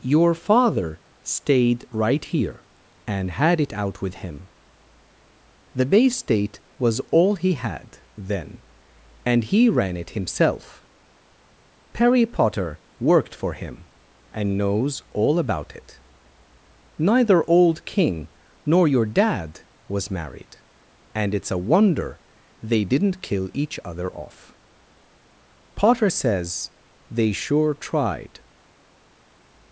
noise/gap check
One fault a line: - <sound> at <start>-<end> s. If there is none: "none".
none